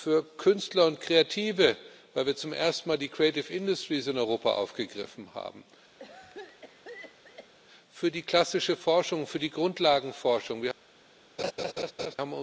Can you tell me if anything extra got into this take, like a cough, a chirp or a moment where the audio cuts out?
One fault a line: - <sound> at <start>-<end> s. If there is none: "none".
- cough at 6.0-7.5 s
- laugh at 11.4-12.2 s